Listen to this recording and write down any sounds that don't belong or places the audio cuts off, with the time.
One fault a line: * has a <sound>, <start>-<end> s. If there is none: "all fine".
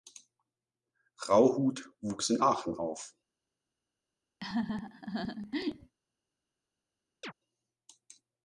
* has a laugh, 4.4-5.9 s
* has a chirp, 7.2-7.3 s